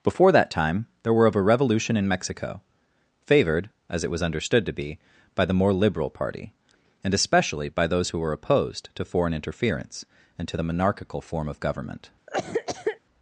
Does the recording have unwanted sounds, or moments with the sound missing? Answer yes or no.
yes